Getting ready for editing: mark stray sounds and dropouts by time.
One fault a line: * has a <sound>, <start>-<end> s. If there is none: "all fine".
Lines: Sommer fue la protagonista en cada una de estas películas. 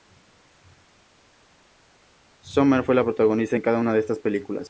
all fine